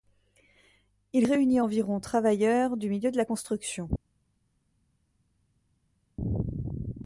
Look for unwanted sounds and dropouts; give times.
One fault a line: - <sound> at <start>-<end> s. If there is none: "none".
none